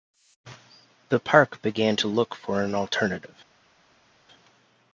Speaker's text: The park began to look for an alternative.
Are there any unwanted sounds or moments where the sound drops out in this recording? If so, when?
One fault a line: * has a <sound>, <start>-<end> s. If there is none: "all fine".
all fine